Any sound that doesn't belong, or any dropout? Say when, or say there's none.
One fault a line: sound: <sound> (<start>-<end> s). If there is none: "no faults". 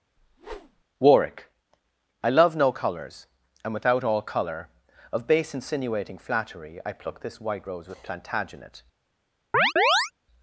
sound: whoosh (0.2-0.8 s)
sound: chirp (9.5-10.1 s)